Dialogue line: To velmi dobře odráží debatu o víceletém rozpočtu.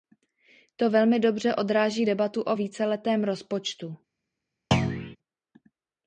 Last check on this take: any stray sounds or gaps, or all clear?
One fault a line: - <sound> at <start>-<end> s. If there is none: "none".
- thud at 4.7-5.2 s